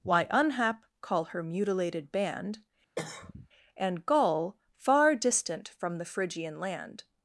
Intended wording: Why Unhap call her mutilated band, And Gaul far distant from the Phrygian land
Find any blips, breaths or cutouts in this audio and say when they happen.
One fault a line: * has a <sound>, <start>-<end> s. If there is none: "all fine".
* has a cough, 3.0-3.5 s